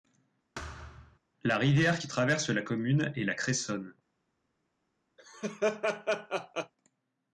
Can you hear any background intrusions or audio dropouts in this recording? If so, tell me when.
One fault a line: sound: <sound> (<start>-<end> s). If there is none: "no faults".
sound: thud (0.6-1.2 s)
sound: laugh (5.2-6.7 s)